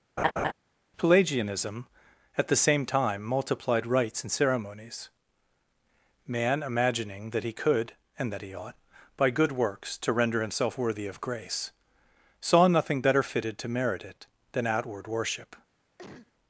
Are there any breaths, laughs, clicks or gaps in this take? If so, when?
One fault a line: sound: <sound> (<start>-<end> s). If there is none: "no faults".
sound: laugh (0.2-0.5 s)
sound: cough (16.0-16.3 s)